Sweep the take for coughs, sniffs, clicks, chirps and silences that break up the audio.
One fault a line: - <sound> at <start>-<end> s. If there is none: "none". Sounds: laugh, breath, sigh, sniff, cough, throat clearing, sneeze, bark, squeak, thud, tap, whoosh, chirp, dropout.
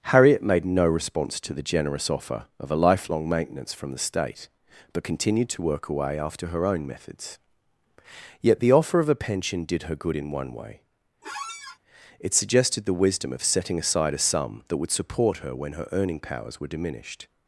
- squeak at 11.2-11.8 s